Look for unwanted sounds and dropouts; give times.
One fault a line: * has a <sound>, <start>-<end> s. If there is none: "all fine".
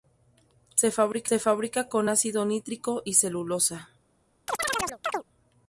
* has a chirp, 4.5-5.2 s